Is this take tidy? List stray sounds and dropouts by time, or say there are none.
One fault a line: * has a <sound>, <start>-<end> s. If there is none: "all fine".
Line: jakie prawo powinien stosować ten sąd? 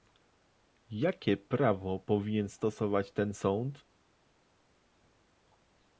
all fine